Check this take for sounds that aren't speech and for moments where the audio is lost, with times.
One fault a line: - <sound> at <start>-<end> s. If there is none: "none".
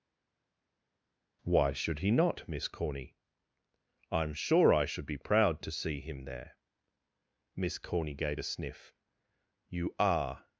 none